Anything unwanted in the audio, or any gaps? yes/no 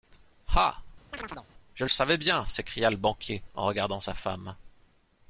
yes